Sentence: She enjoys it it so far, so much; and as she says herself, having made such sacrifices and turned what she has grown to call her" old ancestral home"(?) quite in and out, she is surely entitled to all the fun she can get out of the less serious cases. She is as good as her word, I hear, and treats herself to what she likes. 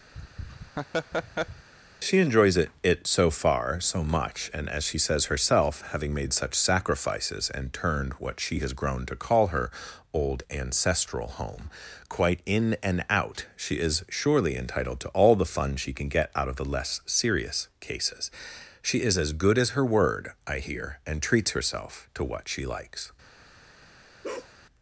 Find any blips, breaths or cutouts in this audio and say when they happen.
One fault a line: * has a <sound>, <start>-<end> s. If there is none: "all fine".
* has a laugh, 0.1-1.7 s
* has a bark, 24.2-24.5 s